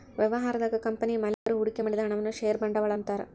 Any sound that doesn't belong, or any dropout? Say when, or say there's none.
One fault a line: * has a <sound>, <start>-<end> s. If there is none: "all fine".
* has a dropout, 1.3-1.5 s